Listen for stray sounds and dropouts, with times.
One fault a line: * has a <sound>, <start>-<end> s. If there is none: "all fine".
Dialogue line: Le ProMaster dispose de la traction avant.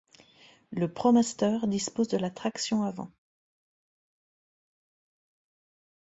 all fine